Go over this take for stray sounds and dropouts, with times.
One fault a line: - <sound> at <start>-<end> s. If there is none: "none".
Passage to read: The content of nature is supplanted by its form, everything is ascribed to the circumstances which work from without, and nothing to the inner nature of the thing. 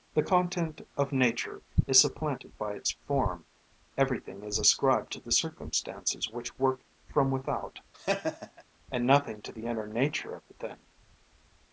- laugh at 7.9-8.6 s